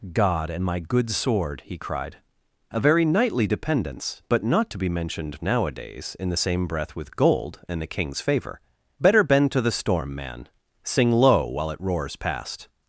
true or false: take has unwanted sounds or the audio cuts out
false